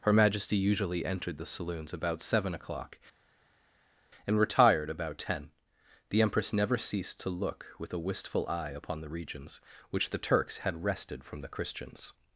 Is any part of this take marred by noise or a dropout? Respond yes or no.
no